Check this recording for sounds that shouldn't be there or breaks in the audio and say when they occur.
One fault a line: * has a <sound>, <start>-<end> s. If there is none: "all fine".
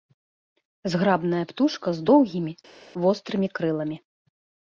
all fine